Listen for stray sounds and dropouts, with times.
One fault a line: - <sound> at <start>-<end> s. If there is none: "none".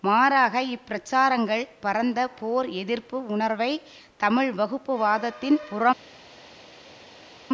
none